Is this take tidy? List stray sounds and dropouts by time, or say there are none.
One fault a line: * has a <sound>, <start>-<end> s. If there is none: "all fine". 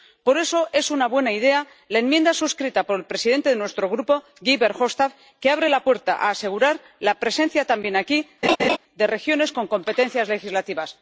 * has a laugh, 8.4-8.8 s